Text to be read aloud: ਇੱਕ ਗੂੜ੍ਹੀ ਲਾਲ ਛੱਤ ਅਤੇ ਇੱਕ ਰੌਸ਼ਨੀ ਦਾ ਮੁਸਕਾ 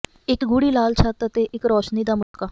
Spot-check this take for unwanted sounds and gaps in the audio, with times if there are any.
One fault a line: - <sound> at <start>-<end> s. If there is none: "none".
- dropout at 2.2-2.3 s